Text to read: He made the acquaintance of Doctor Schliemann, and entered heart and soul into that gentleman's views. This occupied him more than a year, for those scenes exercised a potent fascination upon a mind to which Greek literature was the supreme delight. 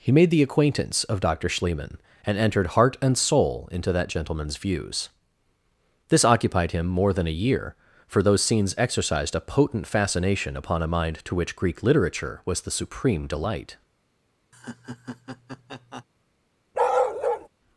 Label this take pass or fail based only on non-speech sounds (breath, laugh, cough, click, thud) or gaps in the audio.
fail